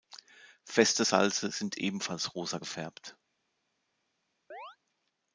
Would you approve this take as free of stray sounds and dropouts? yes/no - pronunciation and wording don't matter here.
no